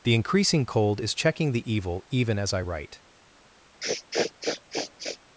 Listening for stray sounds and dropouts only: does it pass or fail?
fail